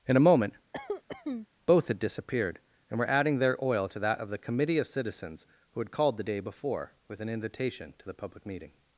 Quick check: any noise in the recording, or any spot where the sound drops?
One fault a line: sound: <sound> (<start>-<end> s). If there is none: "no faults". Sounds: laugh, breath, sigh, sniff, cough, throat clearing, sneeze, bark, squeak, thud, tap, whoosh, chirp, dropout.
sound: cough (0.7-1.5 s)